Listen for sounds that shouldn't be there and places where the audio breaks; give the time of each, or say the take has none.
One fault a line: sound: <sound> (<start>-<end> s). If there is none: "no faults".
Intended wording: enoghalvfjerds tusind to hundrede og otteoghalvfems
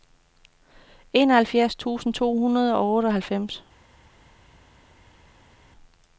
no faults